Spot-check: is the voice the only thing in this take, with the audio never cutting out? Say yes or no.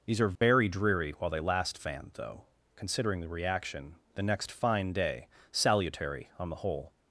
no